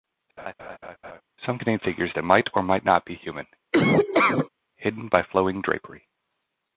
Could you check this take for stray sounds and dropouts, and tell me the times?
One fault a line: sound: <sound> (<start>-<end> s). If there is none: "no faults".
sound: laugh (0.4-1.2 s)
sound: laugh (3.7-4.5 s)